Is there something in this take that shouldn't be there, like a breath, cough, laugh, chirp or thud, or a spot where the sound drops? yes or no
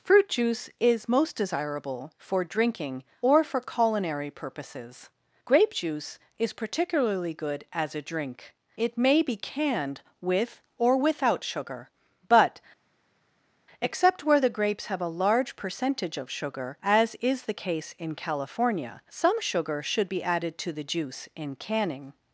no